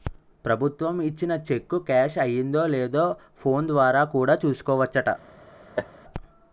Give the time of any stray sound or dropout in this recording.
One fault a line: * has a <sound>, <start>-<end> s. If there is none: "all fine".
* has a laugh, 5.8-5.9 s